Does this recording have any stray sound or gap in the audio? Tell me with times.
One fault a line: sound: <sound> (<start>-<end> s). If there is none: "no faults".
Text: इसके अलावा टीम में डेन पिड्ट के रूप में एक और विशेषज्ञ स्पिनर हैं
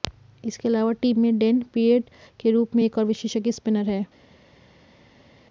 no faults